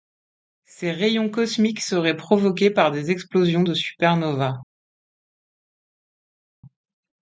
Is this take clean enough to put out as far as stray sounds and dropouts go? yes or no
yes